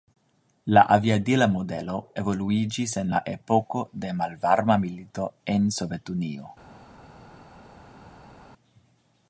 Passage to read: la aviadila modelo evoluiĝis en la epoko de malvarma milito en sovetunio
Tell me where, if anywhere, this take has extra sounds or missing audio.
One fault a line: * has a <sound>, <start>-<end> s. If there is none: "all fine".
all fine